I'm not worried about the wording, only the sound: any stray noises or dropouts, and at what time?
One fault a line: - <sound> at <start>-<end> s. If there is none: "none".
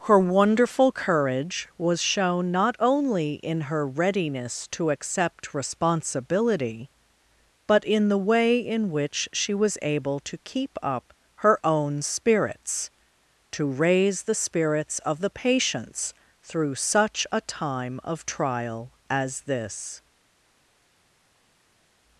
none